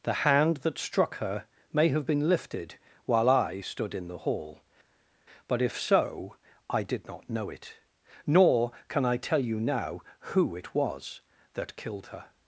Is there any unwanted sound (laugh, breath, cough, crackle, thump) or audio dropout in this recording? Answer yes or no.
no